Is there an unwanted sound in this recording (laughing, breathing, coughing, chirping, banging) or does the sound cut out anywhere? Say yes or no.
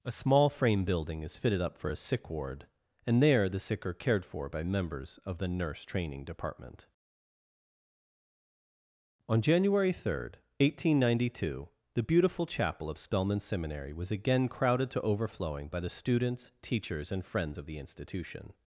no